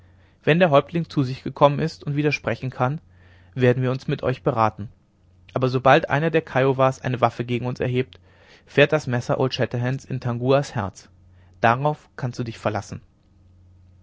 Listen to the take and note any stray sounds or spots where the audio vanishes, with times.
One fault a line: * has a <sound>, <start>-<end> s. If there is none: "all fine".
all fine